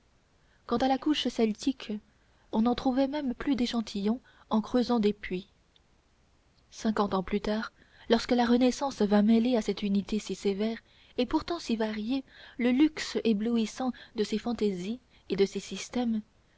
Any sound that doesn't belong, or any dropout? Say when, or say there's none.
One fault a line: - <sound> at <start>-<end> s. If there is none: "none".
none